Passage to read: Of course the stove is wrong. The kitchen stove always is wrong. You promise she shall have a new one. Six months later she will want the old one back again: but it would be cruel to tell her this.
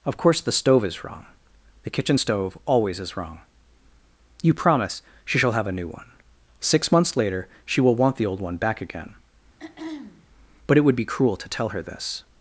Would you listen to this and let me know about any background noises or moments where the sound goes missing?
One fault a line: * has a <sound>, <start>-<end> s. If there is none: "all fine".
* has a throat clearing, 9.6-10.3 s